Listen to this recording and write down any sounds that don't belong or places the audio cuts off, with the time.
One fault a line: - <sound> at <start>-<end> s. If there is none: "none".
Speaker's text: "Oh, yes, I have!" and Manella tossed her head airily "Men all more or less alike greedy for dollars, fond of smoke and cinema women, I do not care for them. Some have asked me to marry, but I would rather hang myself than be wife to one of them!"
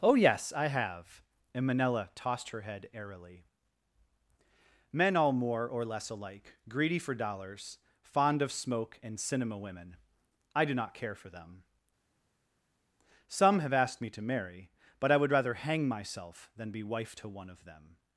none